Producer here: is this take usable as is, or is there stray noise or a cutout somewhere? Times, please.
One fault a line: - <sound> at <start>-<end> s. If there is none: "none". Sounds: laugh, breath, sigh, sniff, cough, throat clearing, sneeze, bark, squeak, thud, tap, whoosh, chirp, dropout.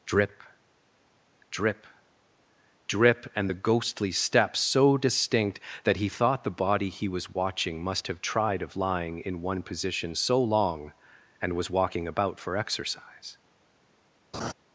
- laugh at 14.3-14.5 s